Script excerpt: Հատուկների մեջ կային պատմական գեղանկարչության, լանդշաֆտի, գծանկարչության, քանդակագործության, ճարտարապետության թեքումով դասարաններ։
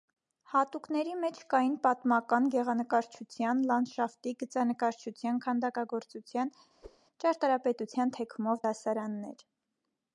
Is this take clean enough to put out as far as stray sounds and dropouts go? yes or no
no